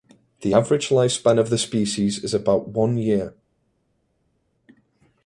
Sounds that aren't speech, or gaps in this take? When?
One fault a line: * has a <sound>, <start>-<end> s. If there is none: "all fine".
all fine